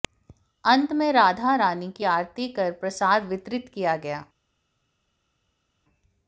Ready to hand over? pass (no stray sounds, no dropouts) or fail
pass